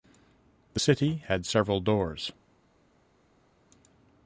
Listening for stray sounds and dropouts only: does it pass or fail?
pass